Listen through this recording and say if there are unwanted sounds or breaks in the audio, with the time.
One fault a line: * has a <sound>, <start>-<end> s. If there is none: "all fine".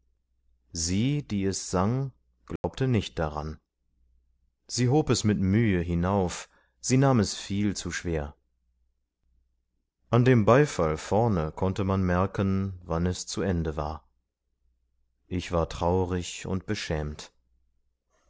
* has a dropout, 2.6-2.6 s